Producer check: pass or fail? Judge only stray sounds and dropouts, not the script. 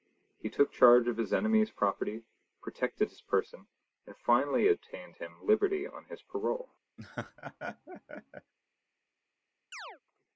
fail